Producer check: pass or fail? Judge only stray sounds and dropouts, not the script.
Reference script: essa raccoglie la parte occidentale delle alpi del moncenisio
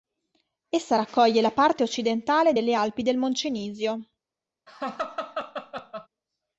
fail